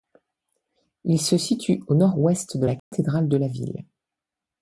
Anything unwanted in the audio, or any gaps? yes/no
yes